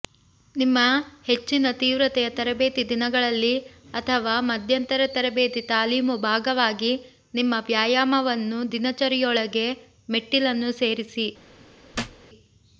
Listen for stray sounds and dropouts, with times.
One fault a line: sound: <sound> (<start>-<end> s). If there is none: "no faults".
sound: thud (11.9-12.3 s)